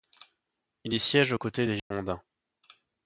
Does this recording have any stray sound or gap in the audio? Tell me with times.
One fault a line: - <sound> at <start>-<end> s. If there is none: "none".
- dropout at 1.8-1.9 s